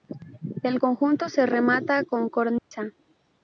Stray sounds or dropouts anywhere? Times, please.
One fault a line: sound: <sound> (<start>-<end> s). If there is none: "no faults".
sound: dropout (2.6-2.7 s)